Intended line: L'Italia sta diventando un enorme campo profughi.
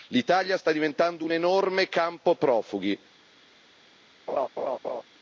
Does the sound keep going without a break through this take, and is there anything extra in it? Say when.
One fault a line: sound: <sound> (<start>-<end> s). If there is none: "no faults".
sound: laugh (4.3-5.0 s)